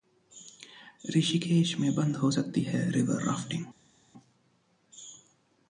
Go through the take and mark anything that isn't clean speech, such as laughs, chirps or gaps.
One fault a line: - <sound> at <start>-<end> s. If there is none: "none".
none